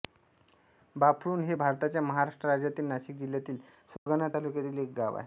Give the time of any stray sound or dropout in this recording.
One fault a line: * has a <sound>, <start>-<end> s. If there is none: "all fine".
* has a dropout, 4.0-4.1 s